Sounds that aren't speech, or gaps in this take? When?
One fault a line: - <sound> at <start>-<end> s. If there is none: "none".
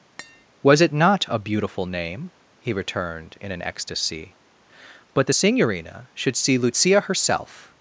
- tap at 0.2-0.5 s